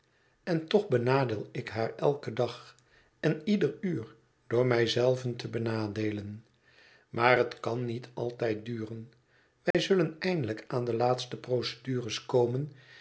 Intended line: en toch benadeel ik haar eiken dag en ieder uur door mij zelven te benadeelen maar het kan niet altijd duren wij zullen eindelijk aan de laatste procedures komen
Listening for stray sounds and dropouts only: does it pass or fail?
fail